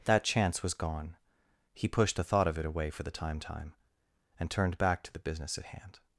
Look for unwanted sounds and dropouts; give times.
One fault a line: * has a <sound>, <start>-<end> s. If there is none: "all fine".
all fine